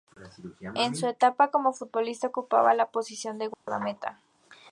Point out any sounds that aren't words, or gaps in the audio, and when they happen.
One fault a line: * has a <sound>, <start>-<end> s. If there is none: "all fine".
* has a dropout, 3.5-3.7 s